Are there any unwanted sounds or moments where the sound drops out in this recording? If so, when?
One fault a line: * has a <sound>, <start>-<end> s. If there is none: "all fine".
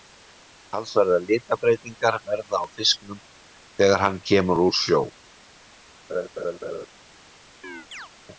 * has a laugh, 6.1-6.9 s
* has a chirp, 7.6-8.1 s